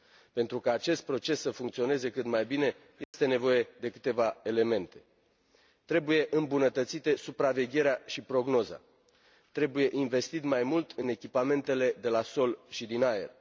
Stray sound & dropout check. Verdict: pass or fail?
fail